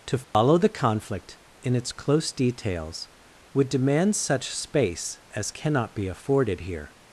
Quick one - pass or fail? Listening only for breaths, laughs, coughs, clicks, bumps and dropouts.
fail